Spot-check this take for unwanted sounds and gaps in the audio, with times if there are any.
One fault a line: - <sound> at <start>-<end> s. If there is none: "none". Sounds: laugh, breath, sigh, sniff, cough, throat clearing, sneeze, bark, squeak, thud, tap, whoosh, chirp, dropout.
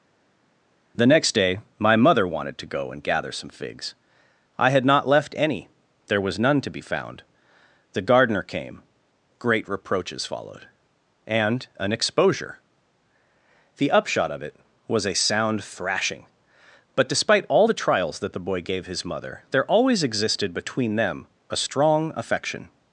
none